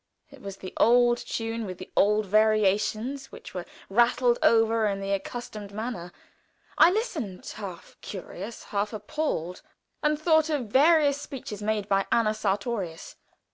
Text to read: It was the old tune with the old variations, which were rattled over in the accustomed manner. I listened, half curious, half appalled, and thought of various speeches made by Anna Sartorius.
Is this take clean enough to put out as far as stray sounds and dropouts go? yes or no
yes